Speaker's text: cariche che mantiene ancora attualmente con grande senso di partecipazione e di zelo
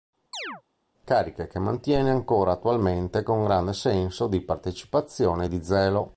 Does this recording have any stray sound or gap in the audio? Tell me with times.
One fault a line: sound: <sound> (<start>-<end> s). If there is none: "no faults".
sound: chirp (0.3-0.6 s)